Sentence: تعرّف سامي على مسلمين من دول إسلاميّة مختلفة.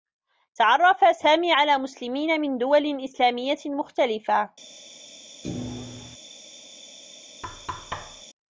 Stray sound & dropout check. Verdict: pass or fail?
fail